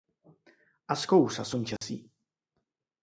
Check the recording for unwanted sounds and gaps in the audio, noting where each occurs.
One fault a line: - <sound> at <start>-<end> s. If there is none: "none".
- dropout at 1.8-1.8 s